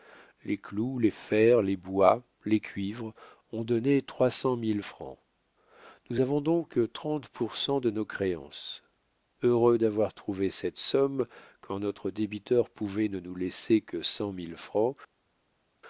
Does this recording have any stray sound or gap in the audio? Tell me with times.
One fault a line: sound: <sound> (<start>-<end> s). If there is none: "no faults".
no faults